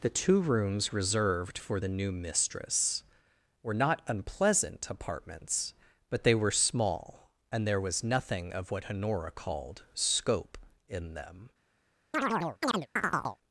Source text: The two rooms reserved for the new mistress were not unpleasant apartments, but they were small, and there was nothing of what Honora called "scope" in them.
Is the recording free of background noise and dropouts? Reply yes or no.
no